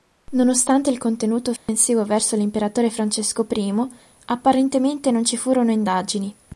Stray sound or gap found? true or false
true